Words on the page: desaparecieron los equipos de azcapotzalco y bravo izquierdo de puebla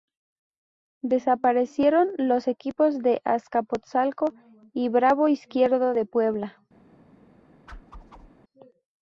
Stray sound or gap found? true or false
true